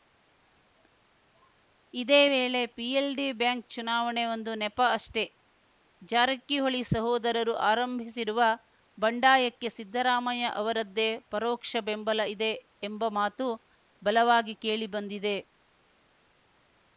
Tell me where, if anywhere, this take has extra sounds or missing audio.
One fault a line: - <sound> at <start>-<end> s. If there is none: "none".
none